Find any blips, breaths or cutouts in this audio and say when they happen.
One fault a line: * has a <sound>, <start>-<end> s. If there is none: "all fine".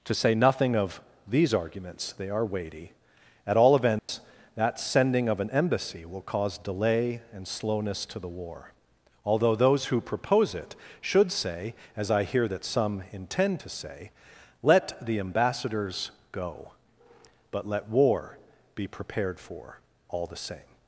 * has a dropout, 4.0-4.1 s